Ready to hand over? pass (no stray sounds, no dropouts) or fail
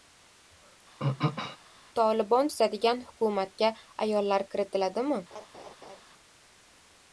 fail